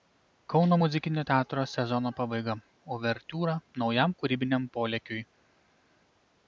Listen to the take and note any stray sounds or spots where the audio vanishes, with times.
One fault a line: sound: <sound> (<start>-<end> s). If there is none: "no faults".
no faults